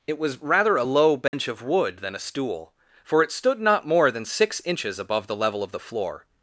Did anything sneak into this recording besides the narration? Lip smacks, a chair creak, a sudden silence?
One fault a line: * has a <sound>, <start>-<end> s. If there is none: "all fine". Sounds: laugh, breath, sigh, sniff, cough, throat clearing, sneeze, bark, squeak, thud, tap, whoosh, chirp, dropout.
* has a dropout, 1.3-1.3 s